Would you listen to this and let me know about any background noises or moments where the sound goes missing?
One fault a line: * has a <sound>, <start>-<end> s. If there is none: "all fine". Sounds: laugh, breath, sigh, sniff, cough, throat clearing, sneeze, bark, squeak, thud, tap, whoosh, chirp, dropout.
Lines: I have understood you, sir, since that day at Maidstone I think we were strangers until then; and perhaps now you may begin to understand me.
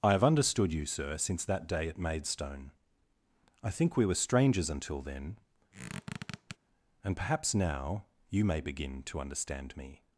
* has a squeak, 5.7-6.6 s